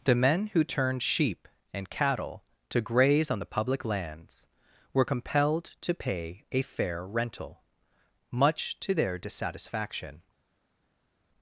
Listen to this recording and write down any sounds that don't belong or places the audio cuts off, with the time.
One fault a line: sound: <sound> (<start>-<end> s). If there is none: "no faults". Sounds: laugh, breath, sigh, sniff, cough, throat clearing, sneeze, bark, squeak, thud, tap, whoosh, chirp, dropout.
no faults